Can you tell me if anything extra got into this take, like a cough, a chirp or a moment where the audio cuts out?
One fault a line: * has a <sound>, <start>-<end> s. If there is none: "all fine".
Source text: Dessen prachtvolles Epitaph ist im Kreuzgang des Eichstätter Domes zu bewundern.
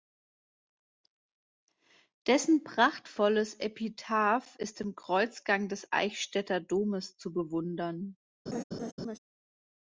* has a laugh, 8.5-9.2 s